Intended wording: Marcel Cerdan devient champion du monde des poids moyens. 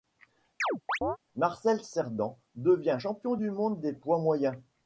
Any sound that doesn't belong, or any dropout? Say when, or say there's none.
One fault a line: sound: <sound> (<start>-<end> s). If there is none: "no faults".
sound: chirp (0.6-1.2 s)